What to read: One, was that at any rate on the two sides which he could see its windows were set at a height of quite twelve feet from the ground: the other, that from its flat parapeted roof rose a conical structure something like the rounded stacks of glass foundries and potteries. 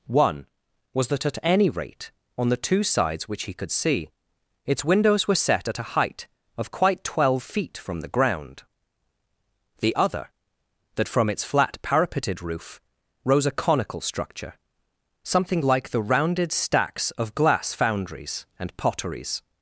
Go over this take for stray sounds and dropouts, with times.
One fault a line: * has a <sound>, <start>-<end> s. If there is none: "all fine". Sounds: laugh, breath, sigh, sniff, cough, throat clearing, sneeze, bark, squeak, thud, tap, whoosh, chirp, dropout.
all fine